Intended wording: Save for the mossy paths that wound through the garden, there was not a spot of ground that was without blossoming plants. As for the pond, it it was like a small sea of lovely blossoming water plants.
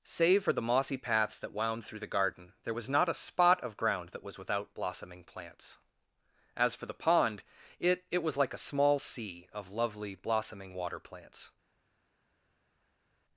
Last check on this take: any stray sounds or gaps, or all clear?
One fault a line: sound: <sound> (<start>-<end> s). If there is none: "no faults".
no faults